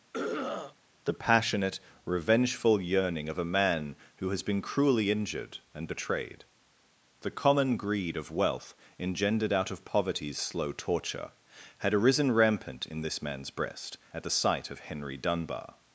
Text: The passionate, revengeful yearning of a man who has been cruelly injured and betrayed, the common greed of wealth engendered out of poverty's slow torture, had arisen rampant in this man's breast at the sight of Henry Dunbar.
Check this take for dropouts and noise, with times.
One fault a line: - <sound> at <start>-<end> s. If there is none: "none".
- throat clearing at 0.1-0.8 s